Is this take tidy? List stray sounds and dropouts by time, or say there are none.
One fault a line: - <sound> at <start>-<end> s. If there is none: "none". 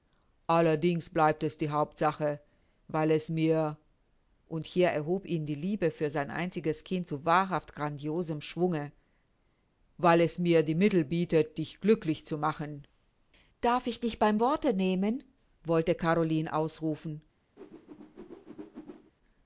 - whoosh at 17.6-19.1 s